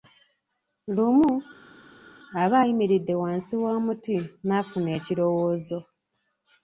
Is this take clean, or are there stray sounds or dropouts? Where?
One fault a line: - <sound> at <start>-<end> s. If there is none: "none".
none